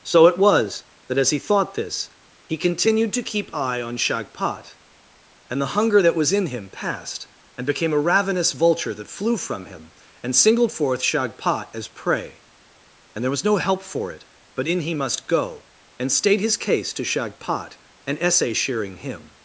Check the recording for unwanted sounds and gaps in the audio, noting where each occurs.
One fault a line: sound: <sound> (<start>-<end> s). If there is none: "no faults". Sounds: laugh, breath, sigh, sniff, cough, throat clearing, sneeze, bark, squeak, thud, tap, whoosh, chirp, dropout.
no faults